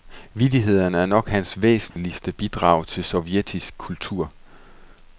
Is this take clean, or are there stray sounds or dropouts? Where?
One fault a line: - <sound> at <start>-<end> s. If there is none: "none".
- dropout at 1.9-2.0 s